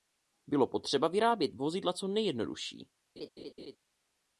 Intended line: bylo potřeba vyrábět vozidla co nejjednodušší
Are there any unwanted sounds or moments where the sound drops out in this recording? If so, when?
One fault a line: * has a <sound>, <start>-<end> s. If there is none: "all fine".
* has a laugh, 3.2-3.8 s